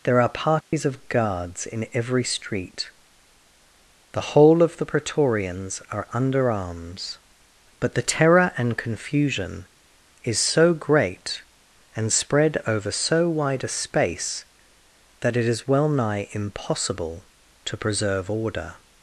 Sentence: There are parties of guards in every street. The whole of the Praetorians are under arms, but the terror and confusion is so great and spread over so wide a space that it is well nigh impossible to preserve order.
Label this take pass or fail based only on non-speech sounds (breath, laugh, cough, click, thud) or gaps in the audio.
fail